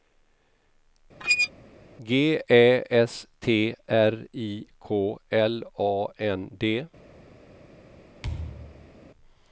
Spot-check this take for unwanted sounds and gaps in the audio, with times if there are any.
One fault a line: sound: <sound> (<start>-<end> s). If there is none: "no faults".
sound: squeak (1.2-1.5 s)
sound: thud (8.2-8.9 s)